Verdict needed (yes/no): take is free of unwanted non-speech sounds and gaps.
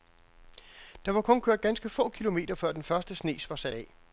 yes